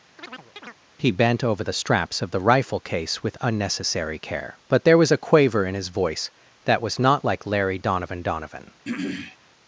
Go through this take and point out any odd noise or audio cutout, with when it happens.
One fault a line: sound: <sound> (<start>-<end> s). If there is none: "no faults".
sound: chirp (0.2-0.8 s)
sound: throat clearing (8.8-9.4 s)